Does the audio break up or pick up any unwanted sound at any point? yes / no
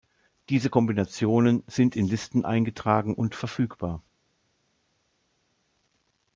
no